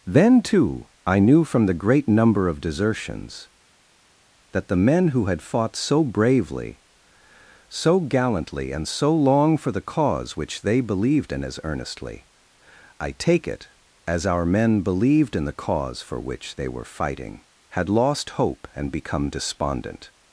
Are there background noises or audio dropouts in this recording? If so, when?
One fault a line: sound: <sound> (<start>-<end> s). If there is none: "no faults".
no faults